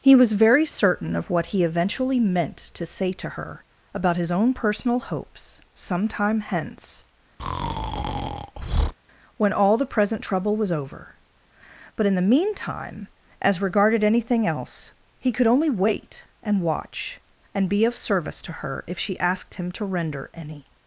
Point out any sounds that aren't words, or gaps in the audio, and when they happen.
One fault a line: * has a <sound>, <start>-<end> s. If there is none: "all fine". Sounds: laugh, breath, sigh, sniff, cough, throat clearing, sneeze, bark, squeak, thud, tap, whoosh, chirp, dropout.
* has a breath, 7.4-8.9 s